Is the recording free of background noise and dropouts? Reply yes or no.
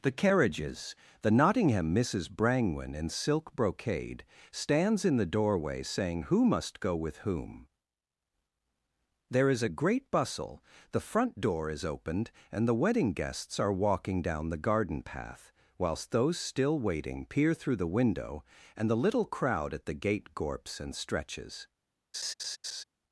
no